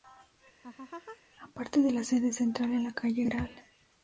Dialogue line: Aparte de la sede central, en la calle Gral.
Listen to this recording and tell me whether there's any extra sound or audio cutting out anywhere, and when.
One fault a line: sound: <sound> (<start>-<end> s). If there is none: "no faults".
sound: laugh (0.6-1.2 s)